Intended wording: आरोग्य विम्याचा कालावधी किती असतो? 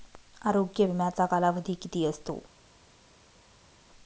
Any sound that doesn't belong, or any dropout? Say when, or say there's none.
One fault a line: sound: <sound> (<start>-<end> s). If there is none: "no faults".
no faults